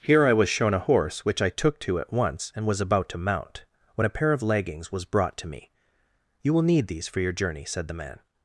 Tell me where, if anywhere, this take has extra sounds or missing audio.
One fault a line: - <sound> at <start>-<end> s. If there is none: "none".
none